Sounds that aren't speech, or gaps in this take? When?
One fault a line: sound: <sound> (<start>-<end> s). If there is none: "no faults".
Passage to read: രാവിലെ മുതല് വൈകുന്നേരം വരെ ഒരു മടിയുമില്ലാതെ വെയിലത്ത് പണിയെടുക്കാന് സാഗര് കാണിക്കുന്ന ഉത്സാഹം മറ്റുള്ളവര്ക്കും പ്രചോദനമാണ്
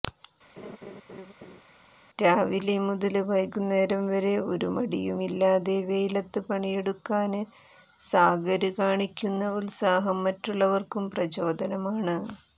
sound: laugh (0.6-1.6 s)